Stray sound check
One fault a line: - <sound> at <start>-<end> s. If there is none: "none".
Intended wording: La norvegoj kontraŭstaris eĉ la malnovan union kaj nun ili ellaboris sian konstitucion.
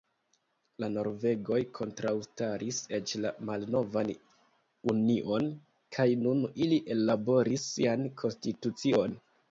none